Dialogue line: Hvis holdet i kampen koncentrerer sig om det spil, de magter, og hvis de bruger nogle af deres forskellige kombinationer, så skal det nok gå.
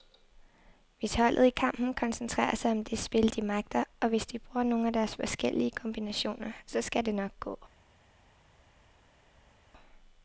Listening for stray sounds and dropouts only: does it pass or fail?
pass